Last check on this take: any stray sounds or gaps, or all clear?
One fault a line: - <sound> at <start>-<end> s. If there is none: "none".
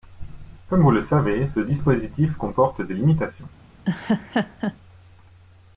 - laugh at 3.8-4.8 s